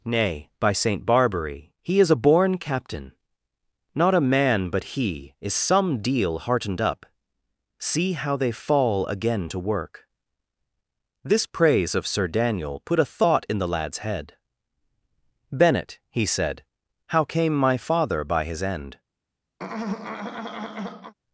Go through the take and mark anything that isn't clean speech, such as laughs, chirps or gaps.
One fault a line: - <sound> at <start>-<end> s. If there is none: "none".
- throat clearing at 19.6-21.1 s